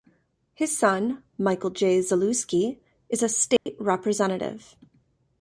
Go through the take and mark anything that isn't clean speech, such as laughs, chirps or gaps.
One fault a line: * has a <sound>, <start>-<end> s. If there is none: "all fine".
* has a dropout, 3.6-3.7 s